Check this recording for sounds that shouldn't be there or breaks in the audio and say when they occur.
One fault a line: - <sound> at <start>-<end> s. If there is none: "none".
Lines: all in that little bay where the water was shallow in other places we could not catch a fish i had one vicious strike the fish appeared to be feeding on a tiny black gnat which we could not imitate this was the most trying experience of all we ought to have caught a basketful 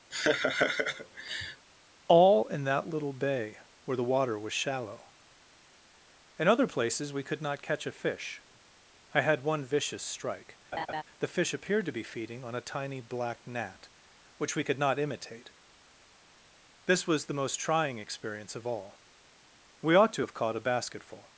- laugh at 0.1-1.7 s
- laugh at 10.7-11.0 s